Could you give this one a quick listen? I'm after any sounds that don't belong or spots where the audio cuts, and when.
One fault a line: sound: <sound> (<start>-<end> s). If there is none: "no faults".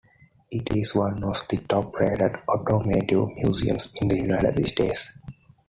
no faults